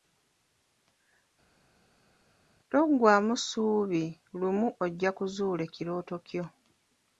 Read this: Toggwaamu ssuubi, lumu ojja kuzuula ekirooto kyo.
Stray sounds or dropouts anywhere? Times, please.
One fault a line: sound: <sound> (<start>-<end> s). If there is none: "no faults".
no faults